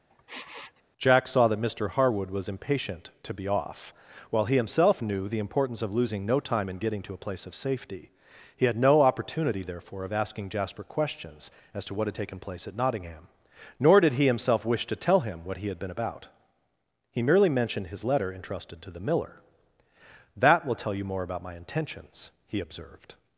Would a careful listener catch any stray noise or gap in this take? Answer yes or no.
yes